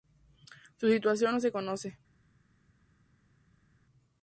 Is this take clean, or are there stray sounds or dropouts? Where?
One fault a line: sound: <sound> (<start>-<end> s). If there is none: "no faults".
no faults